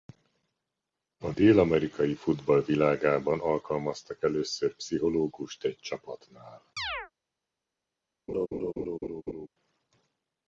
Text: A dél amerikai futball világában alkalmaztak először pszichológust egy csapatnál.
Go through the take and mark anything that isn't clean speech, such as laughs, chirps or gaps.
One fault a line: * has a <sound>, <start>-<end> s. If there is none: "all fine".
* has a chirp, 6.8-7.1 s
* has a laugh, 8.3-9.5 s